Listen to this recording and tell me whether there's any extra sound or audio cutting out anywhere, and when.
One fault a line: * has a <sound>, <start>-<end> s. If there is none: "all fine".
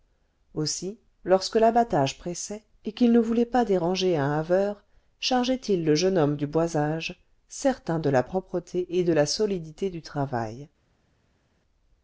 all fine